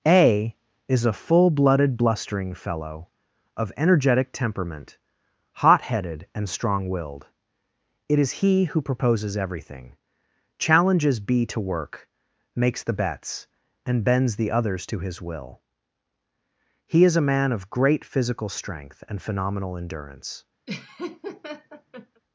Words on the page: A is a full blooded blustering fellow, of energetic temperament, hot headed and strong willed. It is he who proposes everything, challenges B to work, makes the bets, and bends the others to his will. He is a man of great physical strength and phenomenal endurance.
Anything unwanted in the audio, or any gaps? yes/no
yes